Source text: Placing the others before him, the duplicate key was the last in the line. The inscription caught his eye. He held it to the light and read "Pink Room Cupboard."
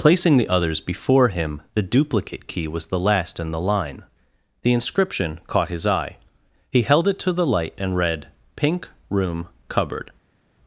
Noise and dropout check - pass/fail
pass